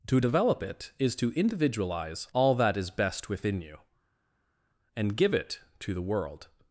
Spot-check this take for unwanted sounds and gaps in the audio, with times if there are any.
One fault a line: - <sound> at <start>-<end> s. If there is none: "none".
none